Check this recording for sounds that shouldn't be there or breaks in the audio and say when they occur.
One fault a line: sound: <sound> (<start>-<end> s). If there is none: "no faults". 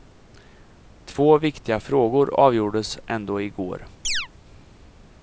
sound: chirp (4.0-4.3 s)